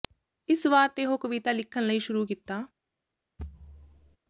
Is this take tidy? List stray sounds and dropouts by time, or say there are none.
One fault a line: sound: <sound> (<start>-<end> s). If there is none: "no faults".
sound: thud (3.4-4.2 s)